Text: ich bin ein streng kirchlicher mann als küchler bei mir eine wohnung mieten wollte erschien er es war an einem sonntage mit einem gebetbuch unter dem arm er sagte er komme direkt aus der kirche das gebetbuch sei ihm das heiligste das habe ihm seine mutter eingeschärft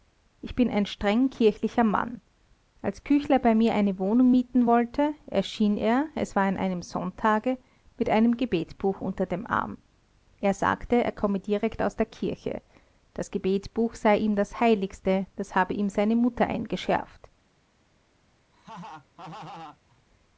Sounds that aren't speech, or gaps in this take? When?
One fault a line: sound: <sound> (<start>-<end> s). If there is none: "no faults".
sound: laugh (18.5-20.0 s)